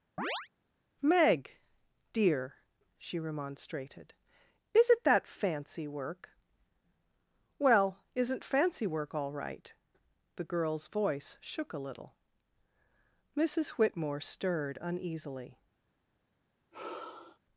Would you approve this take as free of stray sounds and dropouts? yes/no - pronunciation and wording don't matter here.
no